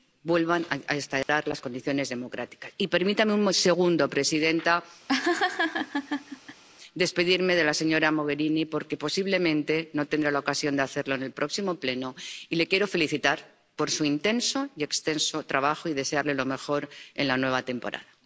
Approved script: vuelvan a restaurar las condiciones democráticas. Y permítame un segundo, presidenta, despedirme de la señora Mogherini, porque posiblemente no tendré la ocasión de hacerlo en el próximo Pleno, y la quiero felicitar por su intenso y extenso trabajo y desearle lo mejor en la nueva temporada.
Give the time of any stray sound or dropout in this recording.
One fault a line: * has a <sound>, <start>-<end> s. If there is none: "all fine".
* has a dropout, 1.2-1.3 s
* has a laugh, 5.1-6.6 s